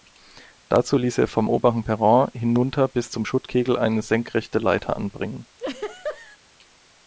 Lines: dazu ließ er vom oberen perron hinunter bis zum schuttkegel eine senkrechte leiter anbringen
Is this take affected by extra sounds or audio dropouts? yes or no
yes